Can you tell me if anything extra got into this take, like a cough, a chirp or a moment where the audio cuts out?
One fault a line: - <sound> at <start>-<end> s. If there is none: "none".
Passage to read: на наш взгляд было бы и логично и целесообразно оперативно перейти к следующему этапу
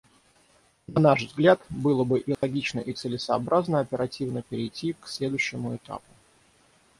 - dropout at 2.3-2.4 s